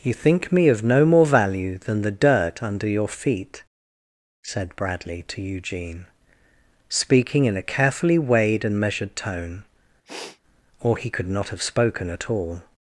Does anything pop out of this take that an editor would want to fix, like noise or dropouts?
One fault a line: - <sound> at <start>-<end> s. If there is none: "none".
- sniff at 10.1-10.4 s